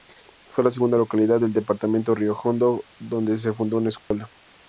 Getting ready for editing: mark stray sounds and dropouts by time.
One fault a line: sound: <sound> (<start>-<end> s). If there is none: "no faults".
sound: dropout (4.0-4.1 s)